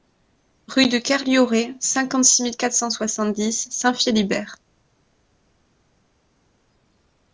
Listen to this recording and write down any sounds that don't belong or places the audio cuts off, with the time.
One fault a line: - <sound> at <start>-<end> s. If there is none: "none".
none